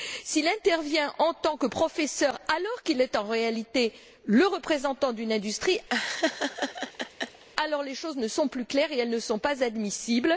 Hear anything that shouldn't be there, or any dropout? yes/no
yes